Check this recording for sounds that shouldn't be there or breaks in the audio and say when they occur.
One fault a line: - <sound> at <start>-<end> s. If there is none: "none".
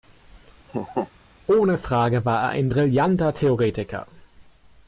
- laugh at 0.7-1.1 s